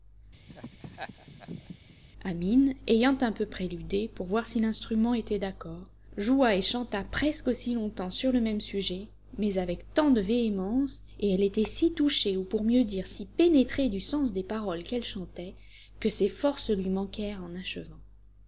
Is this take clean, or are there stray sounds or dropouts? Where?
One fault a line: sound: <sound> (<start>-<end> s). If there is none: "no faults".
sound: laugh (0.5-2.0 s)